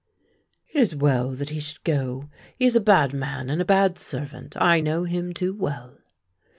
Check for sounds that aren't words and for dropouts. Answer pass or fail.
pass